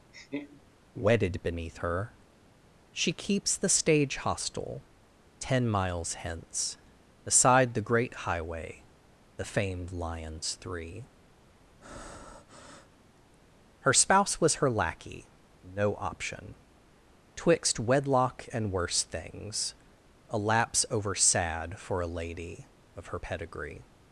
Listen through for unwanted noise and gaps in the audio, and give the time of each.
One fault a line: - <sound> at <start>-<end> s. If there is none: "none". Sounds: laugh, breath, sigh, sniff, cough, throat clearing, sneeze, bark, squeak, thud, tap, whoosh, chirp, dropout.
- laugh at 0.1-0.6 s
- breath at 11.8-13.0 s